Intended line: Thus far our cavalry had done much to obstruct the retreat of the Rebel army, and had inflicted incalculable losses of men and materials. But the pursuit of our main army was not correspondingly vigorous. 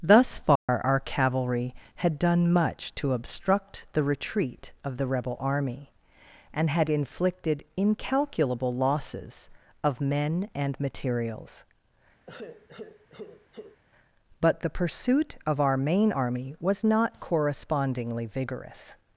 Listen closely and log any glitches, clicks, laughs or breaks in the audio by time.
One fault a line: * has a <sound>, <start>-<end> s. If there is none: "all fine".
* has a dropout, 0.6-0.7 s
* has a sigh, 12.3-13.8 s